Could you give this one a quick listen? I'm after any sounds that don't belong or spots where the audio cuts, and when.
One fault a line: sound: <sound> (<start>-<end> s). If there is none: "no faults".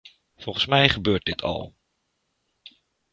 no faults